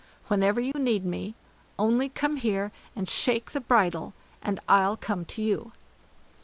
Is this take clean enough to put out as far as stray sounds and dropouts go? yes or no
no